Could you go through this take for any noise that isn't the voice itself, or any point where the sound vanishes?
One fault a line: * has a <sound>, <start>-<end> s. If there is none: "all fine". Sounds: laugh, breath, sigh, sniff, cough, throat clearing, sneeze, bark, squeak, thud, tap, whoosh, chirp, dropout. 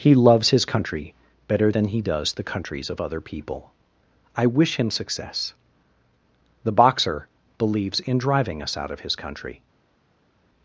all fine